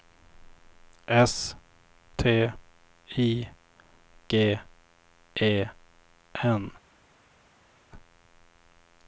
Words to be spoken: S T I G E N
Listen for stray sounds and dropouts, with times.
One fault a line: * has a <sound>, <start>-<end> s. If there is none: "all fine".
all fine